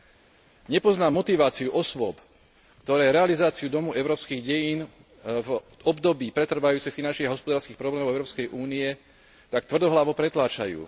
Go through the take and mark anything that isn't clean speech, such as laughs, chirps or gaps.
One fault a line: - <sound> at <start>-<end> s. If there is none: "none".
none